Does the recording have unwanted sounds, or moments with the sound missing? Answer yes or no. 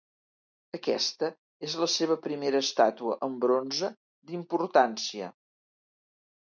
no